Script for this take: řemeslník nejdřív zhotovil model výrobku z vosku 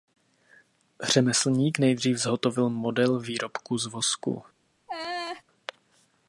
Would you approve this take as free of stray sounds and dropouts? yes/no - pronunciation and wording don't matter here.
no